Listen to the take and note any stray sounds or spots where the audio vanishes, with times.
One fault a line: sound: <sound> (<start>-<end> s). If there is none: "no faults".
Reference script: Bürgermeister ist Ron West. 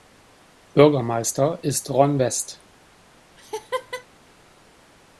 sound: laugh (3.4-4.1 s)